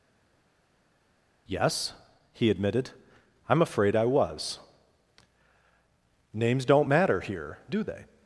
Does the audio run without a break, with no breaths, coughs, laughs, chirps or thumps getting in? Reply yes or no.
yes